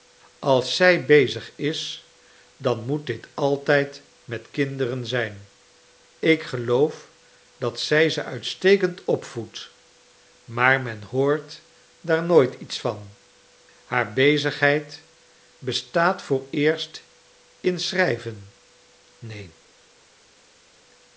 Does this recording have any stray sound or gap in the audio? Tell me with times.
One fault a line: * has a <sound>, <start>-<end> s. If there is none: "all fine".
all fine